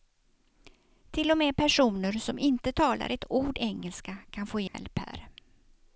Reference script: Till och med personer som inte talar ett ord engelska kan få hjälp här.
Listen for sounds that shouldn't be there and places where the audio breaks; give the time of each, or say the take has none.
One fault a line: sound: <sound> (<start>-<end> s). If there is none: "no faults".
sound: dropout (4.7-4.7 s)